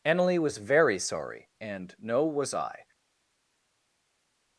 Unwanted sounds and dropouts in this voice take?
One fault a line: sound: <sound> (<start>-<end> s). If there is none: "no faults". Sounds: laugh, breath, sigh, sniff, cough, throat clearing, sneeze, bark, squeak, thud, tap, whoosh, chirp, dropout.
no faults